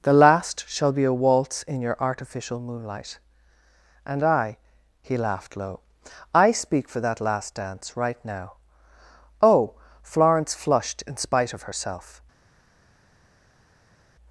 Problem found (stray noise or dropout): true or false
false